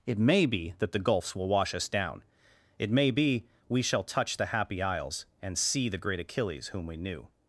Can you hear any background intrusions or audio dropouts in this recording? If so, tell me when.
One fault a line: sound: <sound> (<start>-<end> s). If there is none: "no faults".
no faults